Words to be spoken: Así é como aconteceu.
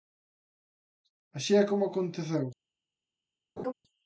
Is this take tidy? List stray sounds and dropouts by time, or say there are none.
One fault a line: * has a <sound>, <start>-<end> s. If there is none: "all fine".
* has a laugh, 3.6-3.7 s